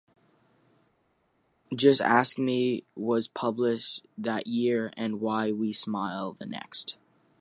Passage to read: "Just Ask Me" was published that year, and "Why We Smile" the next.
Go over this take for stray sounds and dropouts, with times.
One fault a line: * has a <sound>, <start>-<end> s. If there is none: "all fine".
all fine